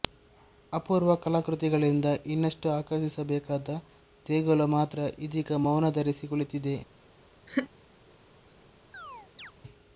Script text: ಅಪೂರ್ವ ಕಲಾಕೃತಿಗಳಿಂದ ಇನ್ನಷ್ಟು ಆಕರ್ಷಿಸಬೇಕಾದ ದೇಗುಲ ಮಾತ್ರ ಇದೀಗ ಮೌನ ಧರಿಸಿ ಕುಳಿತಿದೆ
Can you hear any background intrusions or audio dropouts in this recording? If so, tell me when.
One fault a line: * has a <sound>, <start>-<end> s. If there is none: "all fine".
* has a laugh, 7.5-7.7 s
* has a chirp, 8.9-9.5 s